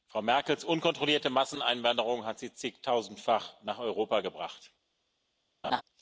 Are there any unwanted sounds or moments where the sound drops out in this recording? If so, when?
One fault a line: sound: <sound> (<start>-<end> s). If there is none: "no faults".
sound: laugh (5.6-5.8 s)